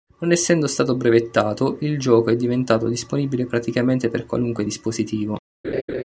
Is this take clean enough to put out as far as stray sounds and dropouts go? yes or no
no